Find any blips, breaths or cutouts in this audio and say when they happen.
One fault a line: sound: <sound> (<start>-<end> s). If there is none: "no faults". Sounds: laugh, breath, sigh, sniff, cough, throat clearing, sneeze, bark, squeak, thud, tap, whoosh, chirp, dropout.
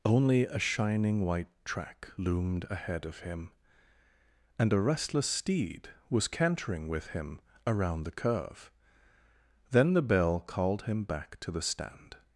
no faults